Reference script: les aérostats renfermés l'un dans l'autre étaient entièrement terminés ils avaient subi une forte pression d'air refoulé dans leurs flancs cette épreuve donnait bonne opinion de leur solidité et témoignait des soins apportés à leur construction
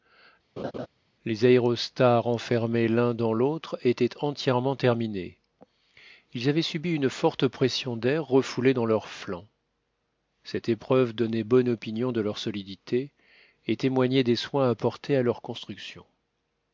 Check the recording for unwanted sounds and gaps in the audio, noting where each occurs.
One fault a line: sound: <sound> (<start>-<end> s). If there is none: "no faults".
sound: laugh (0.6-0.9 s)